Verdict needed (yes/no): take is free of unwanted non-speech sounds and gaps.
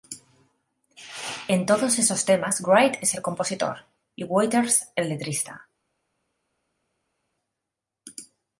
yes